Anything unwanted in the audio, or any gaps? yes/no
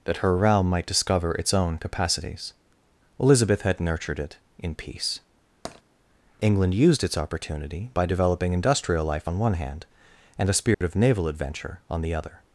yes